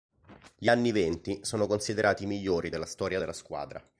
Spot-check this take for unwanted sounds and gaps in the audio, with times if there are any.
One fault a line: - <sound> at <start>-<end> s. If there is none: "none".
none